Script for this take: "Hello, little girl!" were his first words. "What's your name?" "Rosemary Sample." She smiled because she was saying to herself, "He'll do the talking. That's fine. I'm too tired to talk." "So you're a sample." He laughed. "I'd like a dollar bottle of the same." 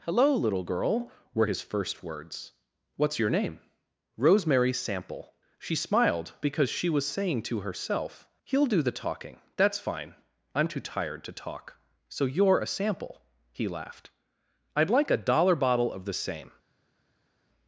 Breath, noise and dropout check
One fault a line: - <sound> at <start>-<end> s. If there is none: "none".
none